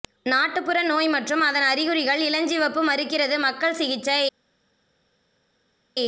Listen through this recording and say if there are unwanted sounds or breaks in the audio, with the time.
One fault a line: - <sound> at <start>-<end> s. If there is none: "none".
none